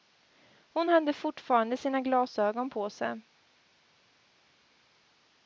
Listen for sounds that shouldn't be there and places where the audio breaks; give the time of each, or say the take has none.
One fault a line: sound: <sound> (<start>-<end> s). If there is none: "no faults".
no faults